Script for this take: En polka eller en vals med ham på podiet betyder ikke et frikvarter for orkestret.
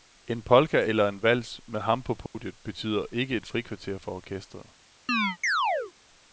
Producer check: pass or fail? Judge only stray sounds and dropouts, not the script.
fail